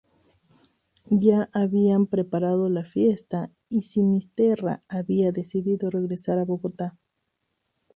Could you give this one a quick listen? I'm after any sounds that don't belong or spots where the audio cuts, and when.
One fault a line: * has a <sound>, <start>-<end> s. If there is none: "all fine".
all fine